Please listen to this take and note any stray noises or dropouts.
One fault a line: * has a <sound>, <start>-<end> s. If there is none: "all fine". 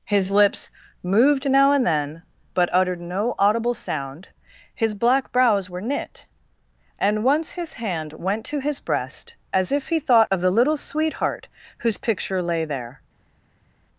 all fine